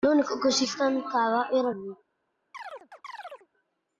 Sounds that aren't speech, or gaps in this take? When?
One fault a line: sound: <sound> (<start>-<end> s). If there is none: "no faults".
sound: chirp (2.5-3.5 s)